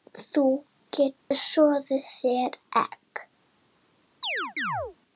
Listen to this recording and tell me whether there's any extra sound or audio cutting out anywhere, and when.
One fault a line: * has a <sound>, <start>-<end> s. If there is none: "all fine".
* has a dropout, 1.2-1.3 s
* has a chirp, 4.2-5.0 s